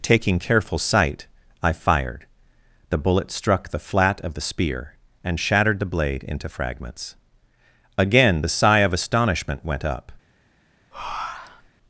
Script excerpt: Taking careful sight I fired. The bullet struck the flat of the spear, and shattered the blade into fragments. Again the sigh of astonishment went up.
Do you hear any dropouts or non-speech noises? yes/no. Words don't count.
yes